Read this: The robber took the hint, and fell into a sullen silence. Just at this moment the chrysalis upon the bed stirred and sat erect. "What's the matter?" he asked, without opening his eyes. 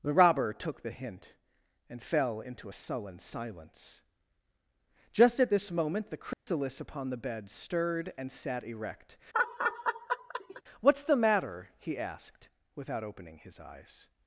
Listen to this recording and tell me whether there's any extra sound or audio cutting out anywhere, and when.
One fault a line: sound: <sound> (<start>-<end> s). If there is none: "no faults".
sound: dropout (6.3-6.5 s)
sound: laugh (9.3-10.6 s)